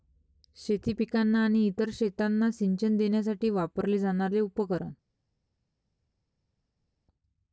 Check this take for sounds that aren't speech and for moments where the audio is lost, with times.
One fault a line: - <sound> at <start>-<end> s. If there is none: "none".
none